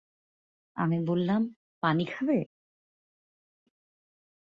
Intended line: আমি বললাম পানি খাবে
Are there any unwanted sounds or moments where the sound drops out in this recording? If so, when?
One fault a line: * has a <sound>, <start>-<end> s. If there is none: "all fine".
all fine